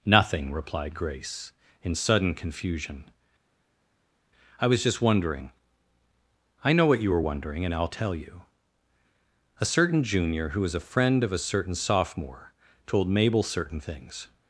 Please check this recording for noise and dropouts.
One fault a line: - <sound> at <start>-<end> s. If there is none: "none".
none